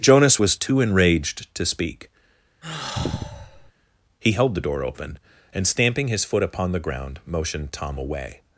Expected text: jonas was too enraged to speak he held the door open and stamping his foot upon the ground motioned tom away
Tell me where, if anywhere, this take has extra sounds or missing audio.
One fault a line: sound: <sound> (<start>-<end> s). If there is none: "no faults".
sound: sigh (2.6-3.7 s)